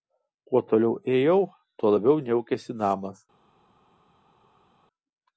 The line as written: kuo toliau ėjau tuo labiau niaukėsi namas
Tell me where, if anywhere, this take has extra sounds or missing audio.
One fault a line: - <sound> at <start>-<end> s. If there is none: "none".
none